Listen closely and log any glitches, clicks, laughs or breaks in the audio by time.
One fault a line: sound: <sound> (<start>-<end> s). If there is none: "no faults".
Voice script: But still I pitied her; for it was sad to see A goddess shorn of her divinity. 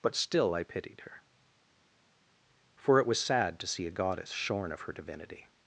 no faults